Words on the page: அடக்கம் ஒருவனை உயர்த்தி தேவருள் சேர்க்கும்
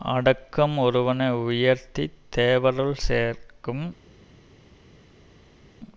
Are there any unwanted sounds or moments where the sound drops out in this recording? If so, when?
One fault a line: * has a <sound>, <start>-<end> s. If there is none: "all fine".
all fine